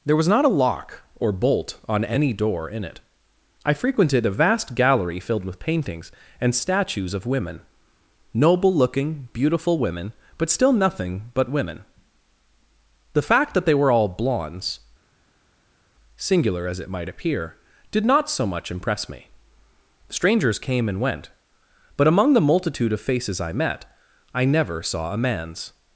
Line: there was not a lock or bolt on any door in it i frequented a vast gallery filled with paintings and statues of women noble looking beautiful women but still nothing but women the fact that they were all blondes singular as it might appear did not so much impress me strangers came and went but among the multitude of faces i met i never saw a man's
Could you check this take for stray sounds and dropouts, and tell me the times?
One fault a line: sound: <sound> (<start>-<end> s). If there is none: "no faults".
no faults